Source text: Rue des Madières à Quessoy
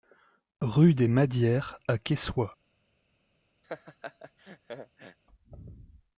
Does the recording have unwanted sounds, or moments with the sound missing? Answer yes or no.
yes